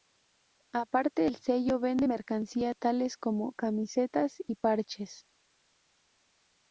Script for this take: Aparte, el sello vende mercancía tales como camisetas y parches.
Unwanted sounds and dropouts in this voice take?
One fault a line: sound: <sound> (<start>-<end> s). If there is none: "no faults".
no faults